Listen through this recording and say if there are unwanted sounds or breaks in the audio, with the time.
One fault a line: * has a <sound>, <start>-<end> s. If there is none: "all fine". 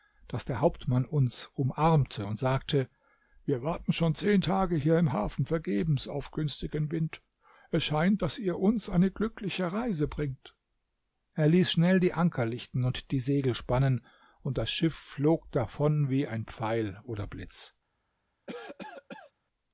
* has a cough, 18.5-19.3 s